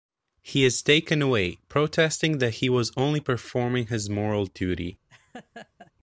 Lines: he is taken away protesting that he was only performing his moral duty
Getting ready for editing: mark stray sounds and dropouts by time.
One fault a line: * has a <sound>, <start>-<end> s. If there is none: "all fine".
* has a laugh, 5.1-5.9 s